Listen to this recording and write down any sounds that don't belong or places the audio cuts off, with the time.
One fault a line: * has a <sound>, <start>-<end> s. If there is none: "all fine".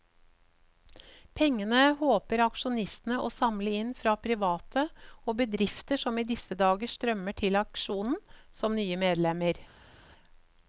all fine